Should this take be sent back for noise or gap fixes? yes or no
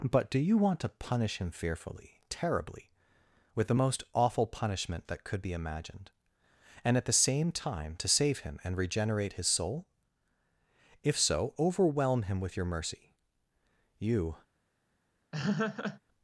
yes